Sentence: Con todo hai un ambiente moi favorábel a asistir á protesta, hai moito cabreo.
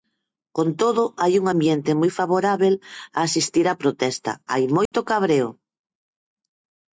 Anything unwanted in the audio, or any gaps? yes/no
yes